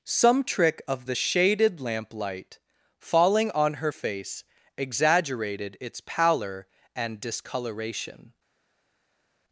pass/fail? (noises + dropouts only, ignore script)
pass